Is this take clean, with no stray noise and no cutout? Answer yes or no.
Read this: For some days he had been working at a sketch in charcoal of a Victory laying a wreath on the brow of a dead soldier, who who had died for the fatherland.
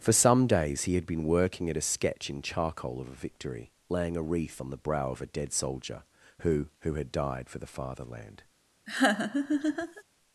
no